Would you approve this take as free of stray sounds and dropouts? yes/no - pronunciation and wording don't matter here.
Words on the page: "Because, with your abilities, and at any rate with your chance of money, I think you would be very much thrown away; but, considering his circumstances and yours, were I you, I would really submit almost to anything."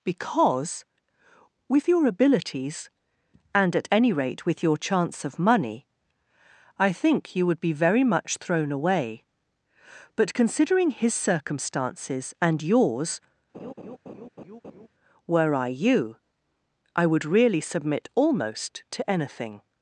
no